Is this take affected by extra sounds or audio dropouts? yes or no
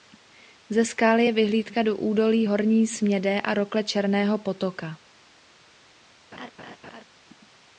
yes